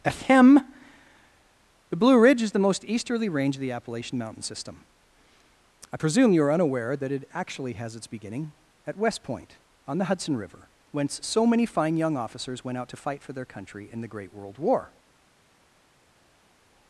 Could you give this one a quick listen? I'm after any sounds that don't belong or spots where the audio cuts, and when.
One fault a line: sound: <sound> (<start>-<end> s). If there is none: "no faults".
no faults